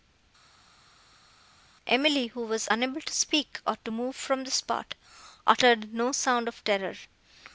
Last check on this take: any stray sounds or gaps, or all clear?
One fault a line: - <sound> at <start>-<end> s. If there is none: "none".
none